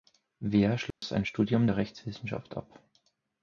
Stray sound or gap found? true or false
true